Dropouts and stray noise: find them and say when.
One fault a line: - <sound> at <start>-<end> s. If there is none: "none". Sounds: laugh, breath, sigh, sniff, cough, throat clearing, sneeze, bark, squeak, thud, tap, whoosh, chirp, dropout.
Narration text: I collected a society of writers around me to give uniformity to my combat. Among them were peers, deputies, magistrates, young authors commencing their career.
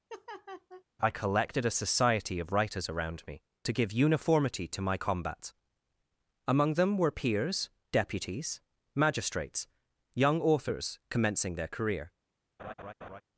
- laugh at 0.1-0.8 s
- laugh at 12.6-13.2 s